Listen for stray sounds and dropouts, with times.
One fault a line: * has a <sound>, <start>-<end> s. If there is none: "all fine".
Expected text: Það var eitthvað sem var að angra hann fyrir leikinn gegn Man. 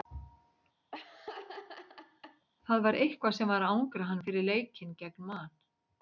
* has a laugh, 0.9-2.5 s